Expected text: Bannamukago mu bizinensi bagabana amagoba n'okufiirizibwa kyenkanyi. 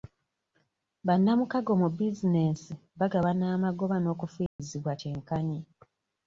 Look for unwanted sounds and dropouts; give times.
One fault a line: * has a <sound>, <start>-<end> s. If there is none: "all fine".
* has a dropout, 4.5-4.6 s